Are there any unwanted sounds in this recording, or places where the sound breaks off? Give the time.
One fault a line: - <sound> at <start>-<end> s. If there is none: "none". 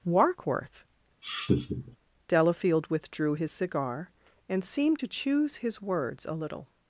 - laugh at 1.2-2.0 s